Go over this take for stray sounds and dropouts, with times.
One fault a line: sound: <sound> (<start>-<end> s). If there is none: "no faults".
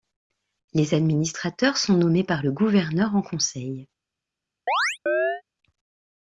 sound: chirp (4.7-5.4 s)